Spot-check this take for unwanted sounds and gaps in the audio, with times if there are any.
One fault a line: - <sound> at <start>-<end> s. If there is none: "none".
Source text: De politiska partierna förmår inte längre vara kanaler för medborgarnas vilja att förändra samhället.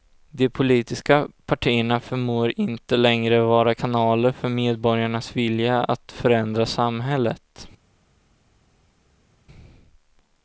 none